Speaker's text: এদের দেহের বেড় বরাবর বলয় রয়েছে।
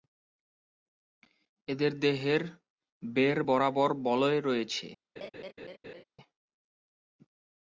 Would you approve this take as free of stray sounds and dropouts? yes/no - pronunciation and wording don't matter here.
no